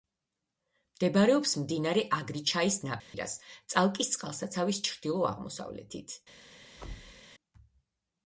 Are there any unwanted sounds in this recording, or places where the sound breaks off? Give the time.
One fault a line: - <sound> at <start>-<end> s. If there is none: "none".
- dropout at 3.0-3.1 s
- thud at 6.8-7.2 s